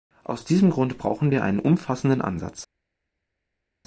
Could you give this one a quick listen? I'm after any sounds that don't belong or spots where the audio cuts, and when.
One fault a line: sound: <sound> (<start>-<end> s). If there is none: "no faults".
no faults